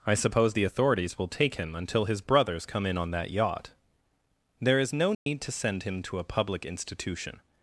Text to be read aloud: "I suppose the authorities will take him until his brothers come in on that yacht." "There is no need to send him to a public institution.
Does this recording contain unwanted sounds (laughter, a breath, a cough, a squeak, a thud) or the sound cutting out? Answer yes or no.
yes